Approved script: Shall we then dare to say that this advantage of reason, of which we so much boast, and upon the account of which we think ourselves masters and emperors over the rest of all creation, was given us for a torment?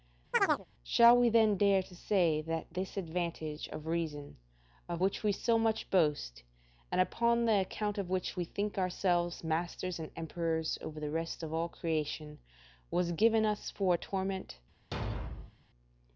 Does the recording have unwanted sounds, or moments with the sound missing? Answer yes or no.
yes